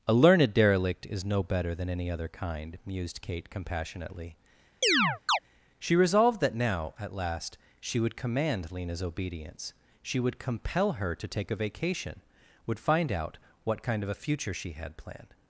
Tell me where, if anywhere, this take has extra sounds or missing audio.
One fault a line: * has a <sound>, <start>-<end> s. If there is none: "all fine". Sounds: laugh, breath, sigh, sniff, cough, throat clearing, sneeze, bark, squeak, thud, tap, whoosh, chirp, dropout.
* has a chirp, 4.8-5.4 s